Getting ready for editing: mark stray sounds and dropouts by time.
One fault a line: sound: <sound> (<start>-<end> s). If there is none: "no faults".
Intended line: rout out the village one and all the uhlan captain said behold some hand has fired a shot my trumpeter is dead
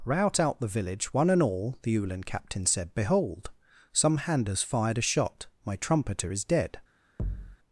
sound: thud (7.2-7.6 s)